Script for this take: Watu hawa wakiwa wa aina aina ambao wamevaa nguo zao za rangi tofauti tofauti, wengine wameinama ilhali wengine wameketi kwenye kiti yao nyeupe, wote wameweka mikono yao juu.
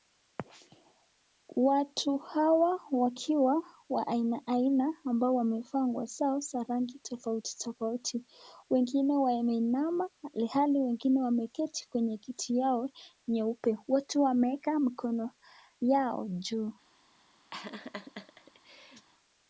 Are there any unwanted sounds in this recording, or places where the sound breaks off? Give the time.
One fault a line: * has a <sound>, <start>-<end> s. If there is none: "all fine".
* has a laugh, 17.5-19.1 s